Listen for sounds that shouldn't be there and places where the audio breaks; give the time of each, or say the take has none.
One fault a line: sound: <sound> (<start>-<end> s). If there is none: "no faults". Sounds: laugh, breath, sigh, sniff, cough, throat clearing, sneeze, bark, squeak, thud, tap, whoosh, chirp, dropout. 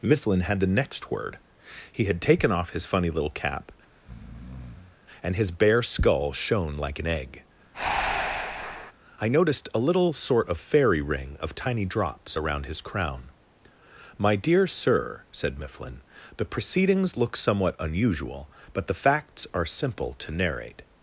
sound: breath (3.9-5.0 s)
sound: breath (7.7-8.9 s)